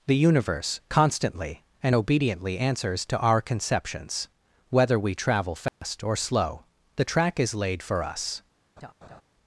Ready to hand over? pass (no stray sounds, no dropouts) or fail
fail